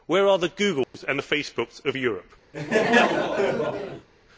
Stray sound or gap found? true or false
true